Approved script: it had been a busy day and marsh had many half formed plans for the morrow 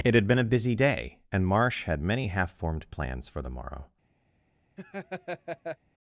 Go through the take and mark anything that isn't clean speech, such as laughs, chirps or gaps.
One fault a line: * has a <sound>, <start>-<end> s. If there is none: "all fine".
* has a laugh, 4.8-5.8 s